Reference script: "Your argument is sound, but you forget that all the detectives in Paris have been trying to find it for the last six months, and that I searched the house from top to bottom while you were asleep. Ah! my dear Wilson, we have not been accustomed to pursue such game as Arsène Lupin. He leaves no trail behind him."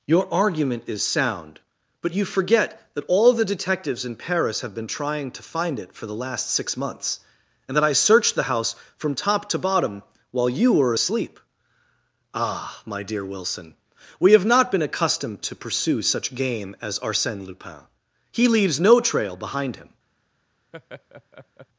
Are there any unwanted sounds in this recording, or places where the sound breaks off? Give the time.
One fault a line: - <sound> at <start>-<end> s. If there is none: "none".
- laugh at 20.7-21.7 s